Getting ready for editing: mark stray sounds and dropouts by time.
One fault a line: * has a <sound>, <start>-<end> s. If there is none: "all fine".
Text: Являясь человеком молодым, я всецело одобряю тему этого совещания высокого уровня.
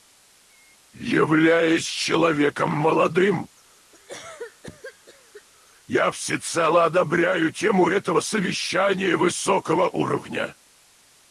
* has a cough, 3.9-5.4 s